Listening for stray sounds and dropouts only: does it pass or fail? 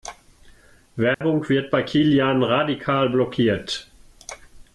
fail